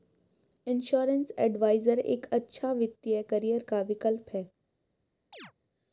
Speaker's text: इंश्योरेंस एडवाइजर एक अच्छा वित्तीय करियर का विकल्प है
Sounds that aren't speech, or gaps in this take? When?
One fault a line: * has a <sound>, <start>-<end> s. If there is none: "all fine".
* has a chirp, 5.3-5.5 s